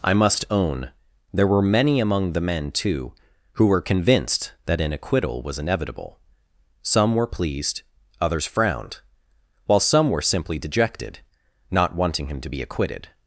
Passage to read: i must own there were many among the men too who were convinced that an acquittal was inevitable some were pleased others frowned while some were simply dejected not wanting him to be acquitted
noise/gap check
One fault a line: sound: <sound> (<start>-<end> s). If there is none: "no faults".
no faults